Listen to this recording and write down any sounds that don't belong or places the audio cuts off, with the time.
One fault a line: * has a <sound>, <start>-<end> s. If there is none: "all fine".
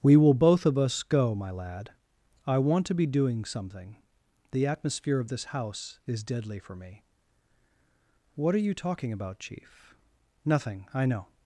all fine